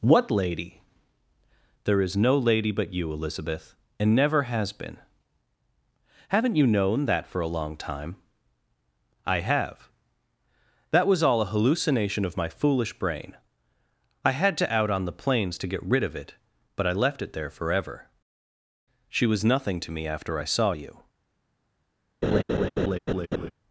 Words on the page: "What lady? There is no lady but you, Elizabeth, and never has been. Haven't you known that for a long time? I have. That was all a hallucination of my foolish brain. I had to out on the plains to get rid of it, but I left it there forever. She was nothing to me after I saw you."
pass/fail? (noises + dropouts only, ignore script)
fail